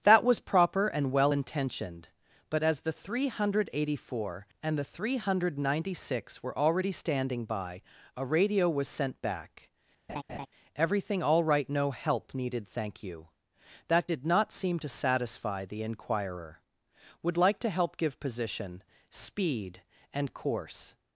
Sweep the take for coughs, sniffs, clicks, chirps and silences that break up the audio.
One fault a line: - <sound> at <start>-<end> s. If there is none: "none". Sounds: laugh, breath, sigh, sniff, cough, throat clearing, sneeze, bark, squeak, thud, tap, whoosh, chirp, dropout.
- laugh at 10.1-10.5 s